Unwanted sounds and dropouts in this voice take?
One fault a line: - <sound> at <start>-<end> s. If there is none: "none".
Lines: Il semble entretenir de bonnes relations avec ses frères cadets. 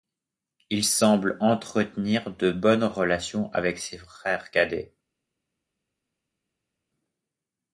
none